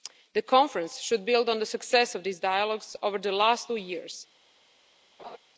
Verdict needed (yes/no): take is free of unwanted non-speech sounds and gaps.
no